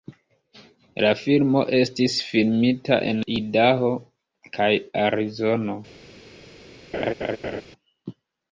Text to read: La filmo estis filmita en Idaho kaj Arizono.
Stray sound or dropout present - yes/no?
yes